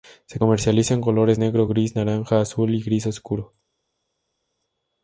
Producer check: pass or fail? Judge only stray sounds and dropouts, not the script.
pass